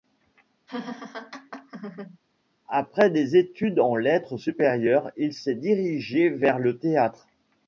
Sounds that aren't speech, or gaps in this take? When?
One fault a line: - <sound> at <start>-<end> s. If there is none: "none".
- laugh at 0.7-2.2 s